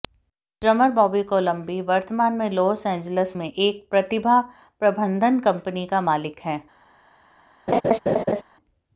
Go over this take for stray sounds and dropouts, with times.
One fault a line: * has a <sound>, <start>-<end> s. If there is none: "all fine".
* has a laugh, 7.7-8.4 s